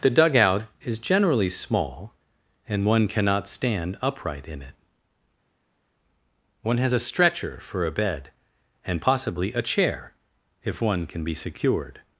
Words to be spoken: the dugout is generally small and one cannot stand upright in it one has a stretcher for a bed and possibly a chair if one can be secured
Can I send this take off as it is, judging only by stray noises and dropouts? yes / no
yes